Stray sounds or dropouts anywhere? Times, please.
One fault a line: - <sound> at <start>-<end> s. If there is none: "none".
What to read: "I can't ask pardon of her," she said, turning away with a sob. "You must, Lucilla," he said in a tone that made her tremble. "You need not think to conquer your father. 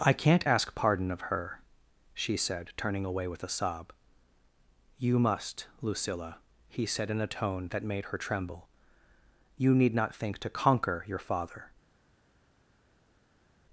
none